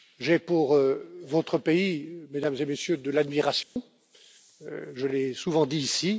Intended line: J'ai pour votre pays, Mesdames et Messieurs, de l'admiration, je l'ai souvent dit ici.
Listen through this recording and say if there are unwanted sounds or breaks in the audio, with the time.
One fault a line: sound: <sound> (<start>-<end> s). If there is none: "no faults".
sound: dropout (3.6-3.8 s)